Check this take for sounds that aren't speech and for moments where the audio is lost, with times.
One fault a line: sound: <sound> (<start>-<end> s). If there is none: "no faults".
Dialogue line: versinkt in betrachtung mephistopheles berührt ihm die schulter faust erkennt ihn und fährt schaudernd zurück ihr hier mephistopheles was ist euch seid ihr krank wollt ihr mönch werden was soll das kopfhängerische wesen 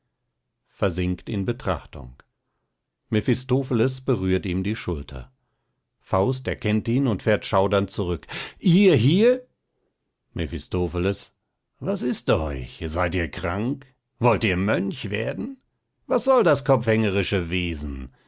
no faults